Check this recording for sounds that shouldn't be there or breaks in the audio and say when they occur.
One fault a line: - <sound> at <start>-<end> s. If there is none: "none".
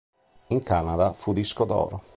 none